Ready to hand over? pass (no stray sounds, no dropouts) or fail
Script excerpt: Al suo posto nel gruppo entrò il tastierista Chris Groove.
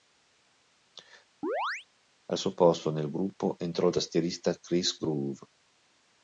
fail